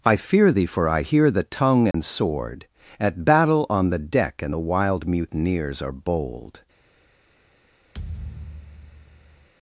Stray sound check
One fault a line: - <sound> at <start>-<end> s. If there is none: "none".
- dropout at 1.9-1.9 s
- thud at 7.9-9.5 s